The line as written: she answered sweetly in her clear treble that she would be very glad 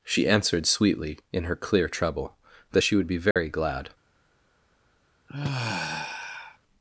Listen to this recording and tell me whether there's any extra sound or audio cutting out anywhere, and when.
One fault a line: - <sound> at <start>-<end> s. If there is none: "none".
- dropout at 3.3-3.4 s
- sigh at 5.3-6.6 s